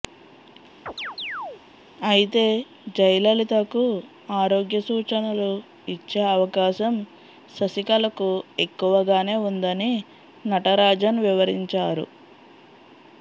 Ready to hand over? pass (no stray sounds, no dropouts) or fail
fail